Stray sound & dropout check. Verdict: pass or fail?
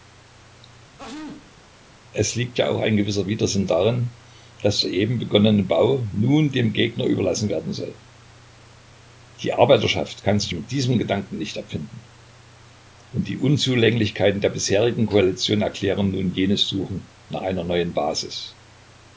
fail